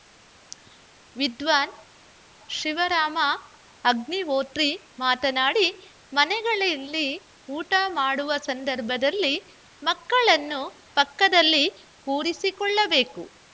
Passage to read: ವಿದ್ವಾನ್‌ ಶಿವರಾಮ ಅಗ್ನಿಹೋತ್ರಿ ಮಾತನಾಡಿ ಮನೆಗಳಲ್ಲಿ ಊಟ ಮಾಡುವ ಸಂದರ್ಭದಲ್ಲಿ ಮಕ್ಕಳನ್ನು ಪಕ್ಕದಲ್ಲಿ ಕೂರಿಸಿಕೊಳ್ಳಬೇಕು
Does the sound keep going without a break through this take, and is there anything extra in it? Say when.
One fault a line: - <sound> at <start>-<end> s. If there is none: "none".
none